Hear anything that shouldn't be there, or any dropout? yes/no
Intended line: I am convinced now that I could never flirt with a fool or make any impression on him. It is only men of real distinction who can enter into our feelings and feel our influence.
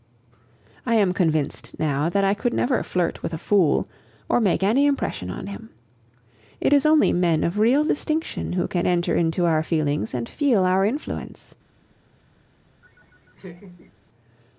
yes